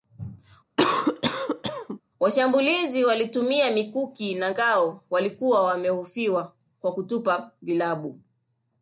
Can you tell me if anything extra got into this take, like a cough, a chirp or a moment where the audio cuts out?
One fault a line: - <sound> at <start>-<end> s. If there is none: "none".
- cough at 0.8-2.0 s